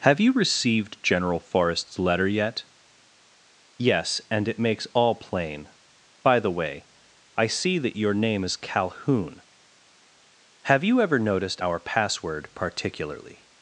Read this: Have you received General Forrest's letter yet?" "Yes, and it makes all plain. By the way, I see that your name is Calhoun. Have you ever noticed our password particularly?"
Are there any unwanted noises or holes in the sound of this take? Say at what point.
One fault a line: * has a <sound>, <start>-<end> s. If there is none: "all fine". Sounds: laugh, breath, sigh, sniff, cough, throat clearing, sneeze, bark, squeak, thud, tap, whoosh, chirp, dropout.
all fine